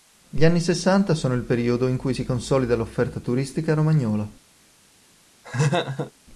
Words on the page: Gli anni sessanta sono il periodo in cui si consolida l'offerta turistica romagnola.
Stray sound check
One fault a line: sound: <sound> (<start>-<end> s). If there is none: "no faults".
sound: laugh (5.4-6.1 s)